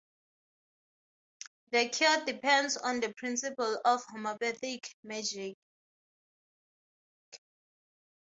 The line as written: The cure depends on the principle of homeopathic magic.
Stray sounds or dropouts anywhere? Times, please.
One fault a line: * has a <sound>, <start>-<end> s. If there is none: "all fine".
all fine